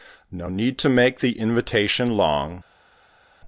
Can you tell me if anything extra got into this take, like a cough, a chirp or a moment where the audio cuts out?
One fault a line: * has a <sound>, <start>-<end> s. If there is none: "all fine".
all fine